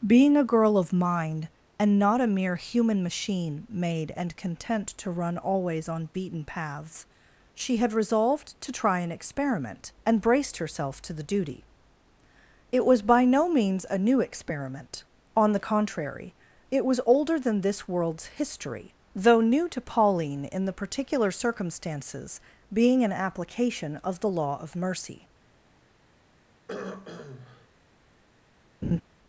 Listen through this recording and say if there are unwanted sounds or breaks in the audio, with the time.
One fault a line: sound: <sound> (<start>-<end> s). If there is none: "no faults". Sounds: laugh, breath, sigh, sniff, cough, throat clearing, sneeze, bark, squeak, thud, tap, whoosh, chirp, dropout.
sound: throat clearing (26.7-27.7 s)
sound: laugh (28.8-29.0 s)